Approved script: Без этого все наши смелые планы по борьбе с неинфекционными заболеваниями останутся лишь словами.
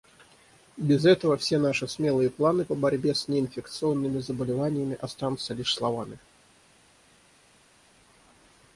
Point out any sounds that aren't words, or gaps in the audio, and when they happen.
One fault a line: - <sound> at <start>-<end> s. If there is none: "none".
none